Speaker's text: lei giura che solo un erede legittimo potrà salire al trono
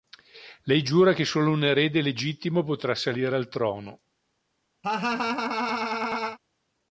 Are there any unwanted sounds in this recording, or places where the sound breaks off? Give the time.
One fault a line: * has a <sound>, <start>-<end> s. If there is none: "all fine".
* has a laugh, 4.8-6.4 s